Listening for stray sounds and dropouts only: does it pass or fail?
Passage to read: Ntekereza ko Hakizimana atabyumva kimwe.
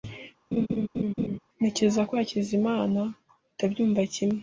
fail